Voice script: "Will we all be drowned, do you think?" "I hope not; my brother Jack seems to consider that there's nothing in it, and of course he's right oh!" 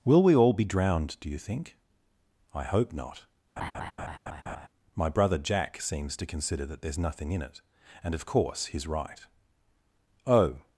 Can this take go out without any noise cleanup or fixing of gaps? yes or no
no